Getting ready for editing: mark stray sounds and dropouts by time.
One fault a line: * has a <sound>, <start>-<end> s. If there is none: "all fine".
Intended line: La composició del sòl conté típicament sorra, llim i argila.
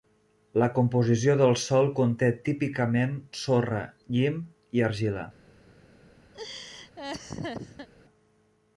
* has a laugh, 6.3-7.9 s